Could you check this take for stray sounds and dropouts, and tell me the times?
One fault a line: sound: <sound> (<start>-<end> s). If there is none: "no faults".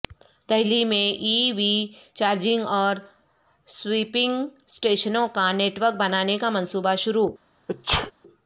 sound: sneeze (7.7-8.1 s)